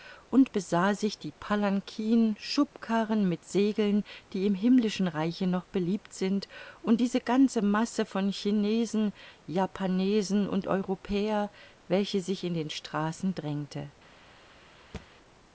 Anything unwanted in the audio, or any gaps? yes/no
yes